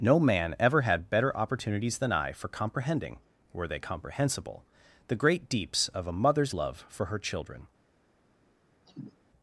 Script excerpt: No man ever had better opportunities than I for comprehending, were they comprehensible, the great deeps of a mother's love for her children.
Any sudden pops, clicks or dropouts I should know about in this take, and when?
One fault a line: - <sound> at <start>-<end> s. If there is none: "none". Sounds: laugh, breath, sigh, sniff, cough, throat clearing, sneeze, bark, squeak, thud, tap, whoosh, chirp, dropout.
- cough at 8.9-9.2 s